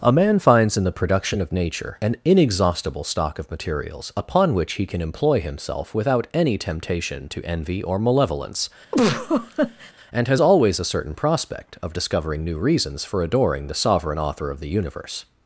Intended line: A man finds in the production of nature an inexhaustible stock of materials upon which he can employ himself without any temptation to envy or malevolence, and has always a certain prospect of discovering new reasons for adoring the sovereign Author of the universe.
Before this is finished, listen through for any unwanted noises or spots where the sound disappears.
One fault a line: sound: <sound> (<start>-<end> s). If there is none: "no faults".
sound: laugh (8.9-9.9 s)